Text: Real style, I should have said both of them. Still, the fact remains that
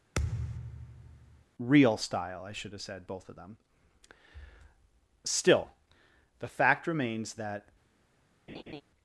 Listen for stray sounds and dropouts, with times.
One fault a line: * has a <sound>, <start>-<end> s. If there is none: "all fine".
* has a thud, 0.2-1.5 s
* has a laugh, 8.5-8.8 s